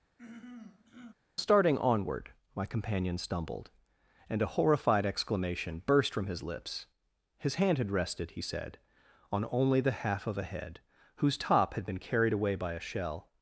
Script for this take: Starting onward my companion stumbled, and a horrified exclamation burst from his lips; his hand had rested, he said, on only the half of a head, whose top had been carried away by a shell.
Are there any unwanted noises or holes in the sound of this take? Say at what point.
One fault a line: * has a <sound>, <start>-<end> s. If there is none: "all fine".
* has a throat clearing, 0.2-1.1 s